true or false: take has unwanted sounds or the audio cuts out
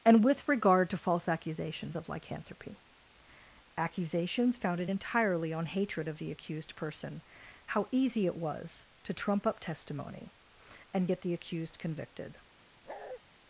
true